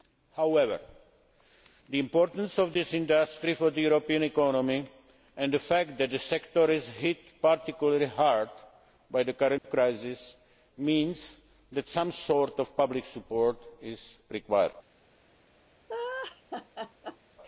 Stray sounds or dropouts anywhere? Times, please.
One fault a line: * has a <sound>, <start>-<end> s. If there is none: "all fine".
* has a dropout, 9.6-9.6 s
* has a laugh, 15.9-17.2 s